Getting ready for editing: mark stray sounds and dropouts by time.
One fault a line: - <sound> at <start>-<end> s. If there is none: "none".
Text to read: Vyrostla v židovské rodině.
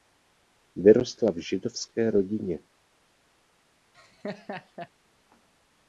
- laugh at 3.9-4.9 s